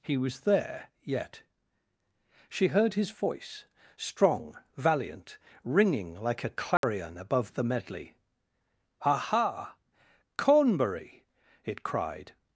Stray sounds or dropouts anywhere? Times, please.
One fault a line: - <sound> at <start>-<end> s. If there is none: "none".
- dropout at 6.8-6.8 s